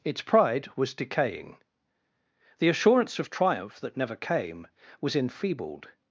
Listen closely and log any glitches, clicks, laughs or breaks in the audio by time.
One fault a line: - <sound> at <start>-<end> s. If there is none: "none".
none